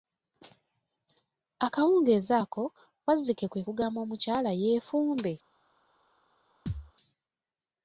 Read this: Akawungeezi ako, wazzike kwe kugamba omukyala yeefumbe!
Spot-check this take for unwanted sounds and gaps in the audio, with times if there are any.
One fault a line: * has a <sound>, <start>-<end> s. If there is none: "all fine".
* has a thud, 6.7-6.9 s